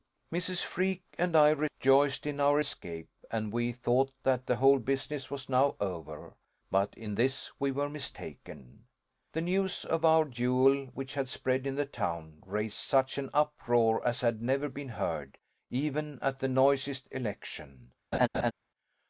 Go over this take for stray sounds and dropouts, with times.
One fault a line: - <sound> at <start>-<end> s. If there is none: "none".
- laugh at 18.1-18.5 s